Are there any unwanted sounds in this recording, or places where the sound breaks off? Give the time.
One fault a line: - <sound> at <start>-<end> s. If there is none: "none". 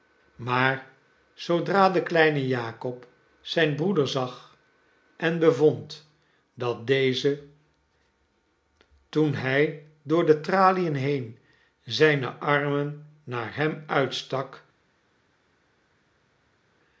none